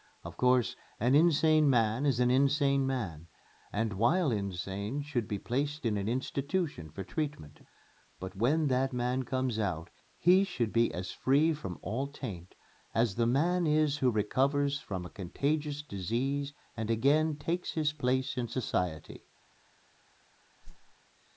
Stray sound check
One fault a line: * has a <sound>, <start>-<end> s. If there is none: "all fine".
* has a whoosh, 20.6-21.0 s